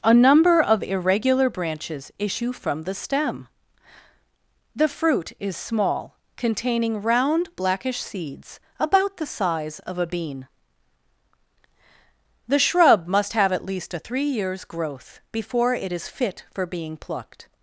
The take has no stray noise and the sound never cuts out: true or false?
true